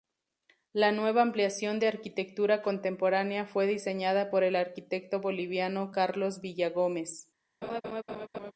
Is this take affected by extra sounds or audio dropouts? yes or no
yes